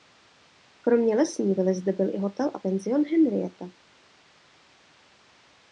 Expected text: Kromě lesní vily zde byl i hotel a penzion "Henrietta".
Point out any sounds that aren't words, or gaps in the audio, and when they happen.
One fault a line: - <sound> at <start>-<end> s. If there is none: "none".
none